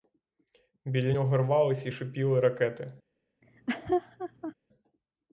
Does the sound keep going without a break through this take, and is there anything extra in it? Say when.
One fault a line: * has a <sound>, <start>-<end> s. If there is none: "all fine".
* has a laugh, 3.4-4.5 s